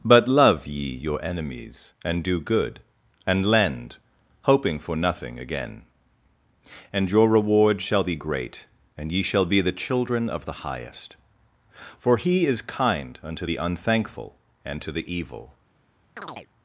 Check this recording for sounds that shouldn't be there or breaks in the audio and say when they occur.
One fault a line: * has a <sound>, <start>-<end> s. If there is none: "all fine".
* has a chirp, 16.2-16.5 s